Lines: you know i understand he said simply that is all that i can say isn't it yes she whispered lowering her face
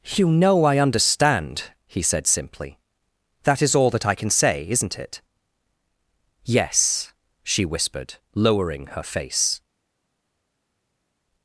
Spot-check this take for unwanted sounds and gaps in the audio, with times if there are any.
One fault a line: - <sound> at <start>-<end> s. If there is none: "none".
none